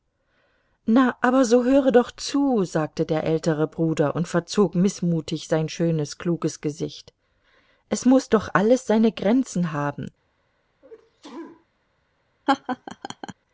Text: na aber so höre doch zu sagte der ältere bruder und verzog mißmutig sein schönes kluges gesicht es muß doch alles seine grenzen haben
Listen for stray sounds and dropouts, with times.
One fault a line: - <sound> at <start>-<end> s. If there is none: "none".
- sneeze at 10.8-11.7 s
- laugh at 12.5-13.3 s